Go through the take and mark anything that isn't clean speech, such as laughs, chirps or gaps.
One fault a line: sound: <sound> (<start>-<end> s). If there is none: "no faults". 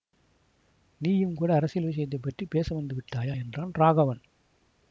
no faults